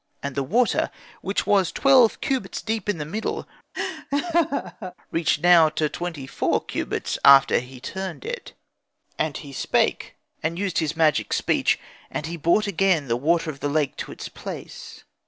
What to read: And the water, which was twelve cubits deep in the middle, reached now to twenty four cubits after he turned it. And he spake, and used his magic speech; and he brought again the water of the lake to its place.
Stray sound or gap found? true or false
true